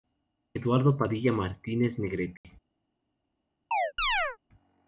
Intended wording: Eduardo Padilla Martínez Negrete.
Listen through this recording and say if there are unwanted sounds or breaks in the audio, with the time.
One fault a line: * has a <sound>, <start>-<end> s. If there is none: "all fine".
* has a dropout, 2.4-2.4 s
* has a chirp, 3.7-4.4 s